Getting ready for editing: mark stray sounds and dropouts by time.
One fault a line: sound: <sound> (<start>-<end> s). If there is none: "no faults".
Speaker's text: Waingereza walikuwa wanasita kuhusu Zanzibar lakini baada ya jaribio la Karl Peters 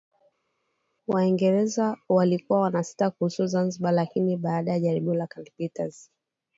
no faults